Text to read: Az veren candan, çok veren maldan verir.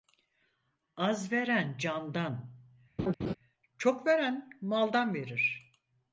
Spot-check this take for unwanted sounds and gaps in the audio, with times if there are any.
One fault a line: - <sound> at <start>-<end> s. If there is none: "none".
- laugh at 3.0-3.3 s